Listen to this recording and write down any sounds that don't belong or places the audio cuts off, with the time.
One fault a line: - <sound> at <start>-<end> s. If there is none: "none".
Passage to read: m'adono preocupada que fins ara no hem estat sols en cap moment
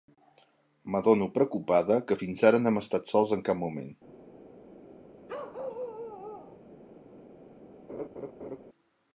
- bark at 5.3-6.6 s
- laugh at 7.9-8.6 s